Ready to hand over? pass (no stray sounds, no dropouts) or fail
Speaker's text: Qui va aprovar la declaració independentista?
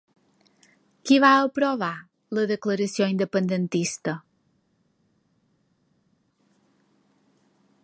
pass